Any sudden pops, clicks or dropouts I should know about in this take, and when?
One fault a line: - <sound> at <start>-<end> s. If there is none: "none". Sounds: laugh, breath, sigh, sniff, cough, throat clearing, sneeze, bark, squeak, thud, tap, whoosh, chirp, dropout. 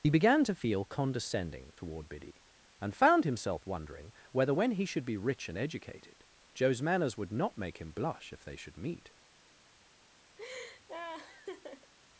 - laugh at 10.4-11.9 s